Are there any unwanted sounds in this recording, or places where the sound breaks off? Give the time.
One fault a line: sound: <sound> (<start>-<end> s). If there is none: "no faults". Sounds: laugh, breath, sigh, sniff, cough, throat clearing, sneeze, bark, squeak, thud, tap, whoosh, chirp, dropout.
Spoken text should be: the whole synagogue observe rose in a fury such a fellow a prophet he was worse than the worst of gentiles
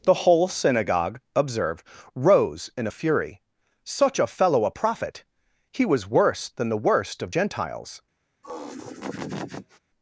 sound: laugh (8.4-9.8 s)